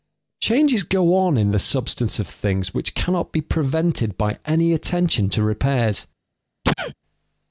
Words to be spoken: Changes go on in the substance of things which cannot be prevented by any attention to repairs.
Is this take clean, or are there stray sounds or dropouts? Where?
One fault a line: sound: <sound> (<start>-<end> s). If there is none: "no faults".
sound: sneeze (6.6-6.9 s)